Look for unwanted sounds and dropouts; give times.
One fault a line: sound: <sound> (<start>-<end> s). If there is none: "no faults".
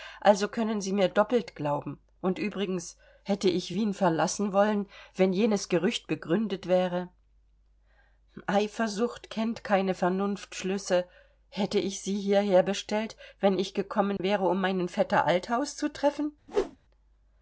sound: dropout (14.2-14.2 s)
sound: whoosh (16.5-16.8 s)